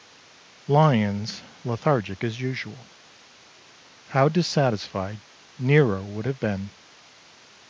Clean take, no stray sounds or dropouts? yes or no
yes